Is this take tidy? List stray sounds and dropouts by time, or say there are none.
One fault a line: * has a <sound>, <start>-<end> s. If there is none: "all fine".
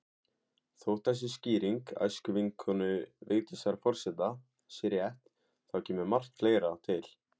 all fine